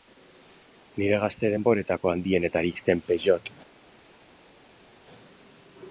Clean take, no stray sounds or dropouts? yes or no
yes